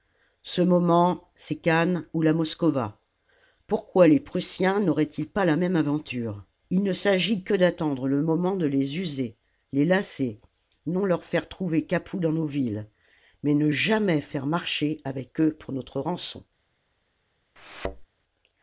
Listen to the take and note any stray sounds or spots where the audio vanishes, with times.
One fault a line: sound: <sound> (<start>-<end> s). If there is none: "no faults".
sound: thud (17.6-18.1 s)